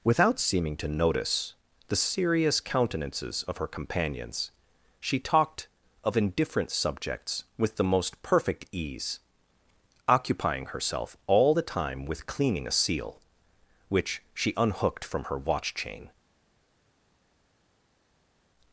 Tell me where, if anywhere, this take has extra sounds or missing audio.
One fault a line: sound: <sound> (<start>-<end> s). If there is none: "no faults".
no faults